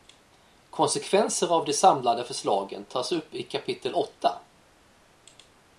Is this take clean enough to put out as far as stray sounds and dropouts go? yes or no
yes